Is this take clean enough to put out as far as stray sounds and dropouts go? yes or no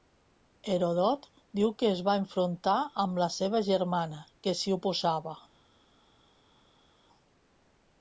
yes